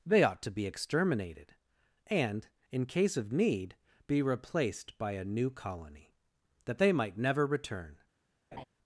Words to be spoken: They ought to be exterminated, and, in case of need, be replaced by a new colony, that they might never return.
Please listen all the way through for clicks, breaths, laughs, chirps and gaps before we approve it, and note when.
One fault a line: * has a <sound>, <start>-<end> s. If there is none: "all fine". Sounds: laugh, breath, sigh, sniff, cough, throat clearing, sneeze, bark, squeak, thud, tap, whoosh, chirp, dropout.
* has a laugh, 8.5-8.6 s